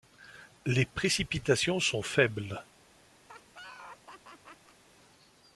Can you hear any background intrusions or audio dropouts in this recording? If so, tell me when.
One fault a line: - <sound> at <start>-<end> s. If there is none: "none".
- laugh at 3.2-4.8 s